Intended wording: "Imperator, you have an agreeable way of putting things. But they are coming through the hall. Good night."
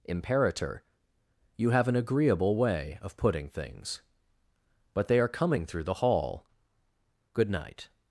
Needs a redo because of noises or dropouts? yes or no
no